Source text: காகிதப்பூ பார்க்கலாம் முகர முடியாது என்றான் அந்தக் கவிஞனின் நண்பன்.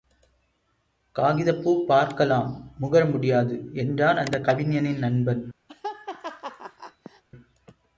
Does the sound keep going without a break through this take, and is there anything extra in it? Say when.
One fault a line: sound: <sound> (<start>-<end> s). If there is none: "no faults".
sound: laugh (5.7-7.2 s)